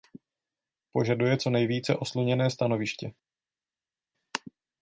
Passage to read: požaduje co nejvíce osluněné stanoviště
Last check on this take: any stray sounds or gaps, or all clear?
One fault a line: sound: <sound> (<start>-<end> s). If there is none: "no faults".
no faults